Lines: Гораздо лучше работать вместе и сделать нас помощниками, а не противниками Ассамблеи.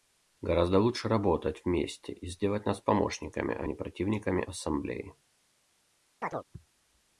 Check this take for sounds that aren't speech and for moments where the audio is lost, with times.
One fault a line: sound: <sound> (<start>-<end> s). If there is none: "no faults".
sound: chirp (6.2-6.4 s)